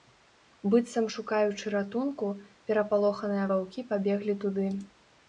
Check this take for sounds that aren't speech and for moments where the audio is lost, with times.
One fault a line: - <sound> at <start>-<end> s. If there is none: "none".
none